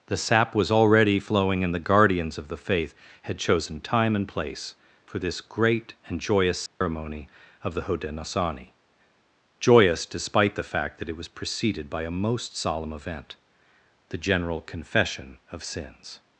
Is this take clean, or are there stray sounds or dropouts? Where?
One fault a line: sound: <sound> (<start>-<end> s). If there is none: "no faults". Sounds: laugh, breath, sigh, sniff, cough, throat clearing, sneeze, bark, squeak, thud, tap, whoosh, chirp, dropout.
sound: dropout (6.7-6.8 s)